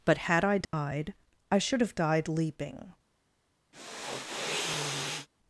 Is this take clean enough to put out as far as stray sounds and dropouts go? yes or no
no